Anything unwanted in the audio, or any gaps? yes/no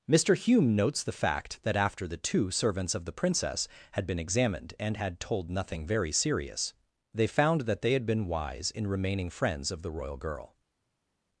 no